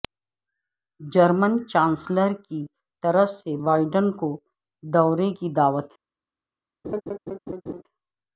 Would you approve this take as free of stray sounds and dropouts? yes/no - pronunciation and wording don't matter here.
no